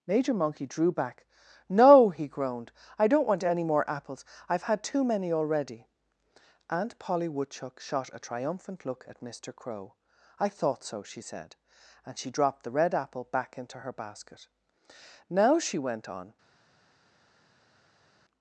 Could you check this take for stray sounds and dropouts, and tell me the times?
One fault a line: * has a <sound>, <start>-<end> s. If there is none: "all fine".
all fine